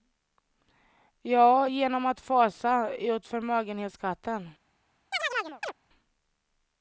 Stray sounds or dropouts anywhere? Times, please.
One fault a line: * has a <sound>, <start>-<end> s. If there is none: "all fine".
* has a chirp, 5.1-5.7 s